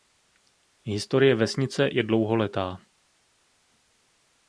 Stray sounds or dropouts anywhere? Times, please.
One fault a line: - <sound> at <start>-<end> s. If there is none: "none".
none